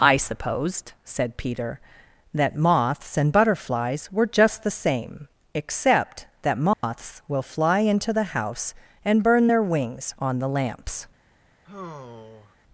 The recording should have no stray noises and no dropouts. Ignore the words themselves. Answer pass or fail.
fail